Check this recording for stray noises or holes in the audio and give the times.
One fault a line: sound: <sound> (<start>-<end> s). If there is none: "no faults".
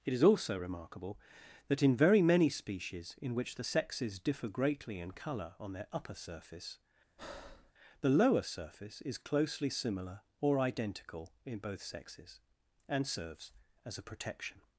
sound: breath (7.2-7.7 s)